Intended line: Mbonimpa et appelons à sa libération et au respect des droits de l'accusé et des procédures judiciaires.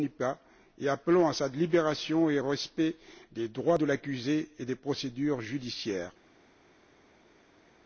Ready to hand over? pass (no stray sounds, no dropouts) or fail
pass